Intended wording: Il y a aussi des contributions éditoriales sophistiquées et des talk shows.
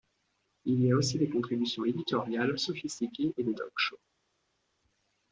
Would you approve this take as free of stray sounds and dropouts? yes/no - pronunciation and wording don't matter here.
yes